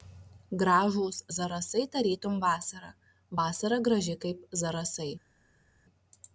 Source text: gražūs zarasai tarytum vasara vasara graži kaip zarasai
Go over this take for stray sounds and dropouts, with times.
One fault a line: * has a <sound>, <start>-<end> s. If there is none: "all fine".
all fine